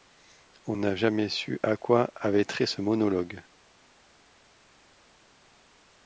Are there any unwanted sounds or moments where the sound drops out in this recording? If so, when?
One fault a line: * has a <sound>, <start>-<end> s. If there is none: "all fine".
all fine